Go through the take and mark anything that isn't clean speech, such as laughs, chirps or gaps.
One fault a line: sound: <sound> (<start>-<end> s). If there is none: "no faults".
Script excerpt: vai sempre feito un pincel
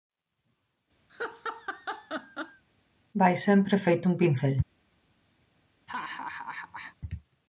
sound: laugh (1.1-2.6 s)
sound: laugh (5.9-7.0 s)